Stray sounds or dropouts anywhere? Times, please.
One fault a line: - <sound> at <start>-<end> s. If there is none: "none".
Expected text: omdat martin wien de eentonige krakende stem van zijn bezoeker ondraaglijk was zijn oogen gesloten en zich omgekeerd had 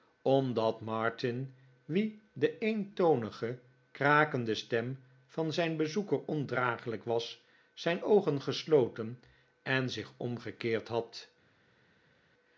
none